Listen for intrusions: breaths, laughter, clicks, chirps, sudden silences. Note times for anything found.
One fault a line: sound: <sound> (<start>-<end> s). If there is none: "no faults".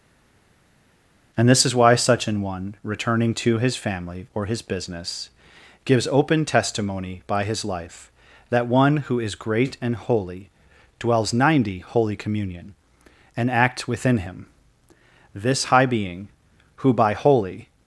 no faults